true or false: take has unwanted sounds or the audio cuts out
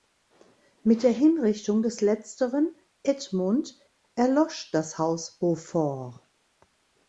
false